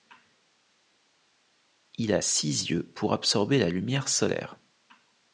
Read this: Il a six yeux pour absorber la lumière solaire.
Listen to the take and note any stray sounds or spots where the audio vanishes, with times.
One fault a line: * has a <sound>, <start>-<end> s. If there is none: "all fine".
all fine